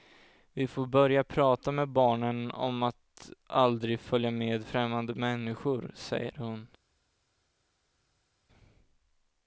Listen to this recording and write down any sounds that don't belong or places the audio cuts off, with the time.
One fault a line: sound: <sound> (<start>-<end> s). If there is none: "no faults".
no faults